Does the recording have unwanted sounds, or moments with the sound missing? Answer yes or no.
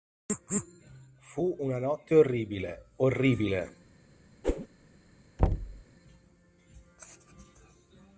yes